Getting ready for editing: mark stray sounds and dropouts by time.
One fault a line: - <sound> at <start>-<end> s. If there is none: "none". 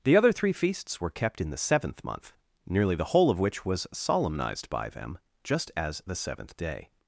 none